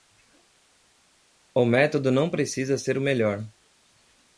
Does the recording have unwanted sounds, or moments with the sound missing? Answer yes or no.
no